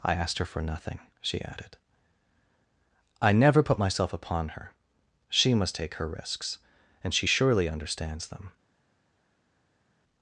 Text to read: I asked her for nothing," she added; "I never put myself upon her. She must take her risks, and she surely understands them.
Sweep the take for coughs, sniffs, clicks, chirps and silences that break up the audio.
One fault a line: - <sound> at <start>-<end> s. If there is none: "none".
none